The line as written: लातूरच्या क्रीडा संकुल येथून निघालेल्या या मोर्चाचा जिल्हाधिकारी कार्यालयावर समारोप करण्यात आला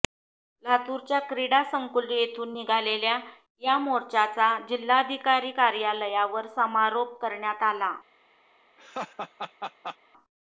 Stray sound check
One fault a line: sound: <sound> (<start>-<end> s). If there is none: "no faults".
sound: laugh (8.8-10.0 s)